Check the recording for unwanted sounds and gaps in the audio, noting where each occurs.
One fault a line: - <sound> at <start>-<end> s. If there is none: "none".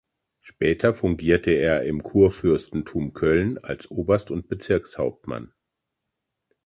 none